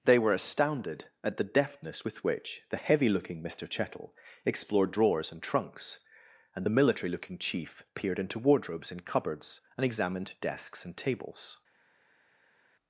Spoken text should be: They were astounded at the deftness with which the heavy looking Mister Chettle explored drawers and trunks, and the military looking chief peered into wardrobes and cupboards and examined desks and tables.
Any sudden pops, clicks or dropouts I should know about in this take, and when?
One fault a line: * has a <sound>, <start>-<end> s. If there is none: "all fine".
all fine